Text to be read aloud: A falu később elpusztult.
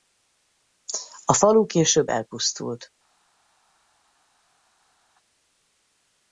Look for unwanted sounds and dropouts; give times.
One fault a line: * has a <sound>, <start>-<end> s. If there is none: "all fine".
all fine